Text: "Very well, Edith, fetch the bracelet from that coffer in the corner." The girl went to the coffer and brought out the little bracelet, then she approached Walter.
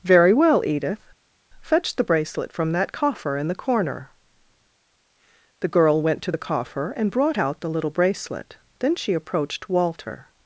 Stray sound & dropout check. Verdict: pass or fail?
pass